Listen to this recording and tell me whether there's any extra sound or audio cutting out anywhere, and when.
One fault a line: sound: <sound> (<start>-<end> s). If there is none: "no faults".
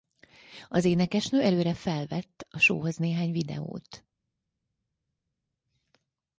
no faults